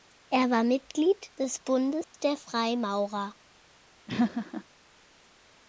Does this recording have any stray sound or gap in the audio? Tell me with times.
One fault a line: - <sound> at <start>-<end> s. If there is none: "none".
- dropout at 2.0-2.1 s
- laugh at 4.1-4.6 s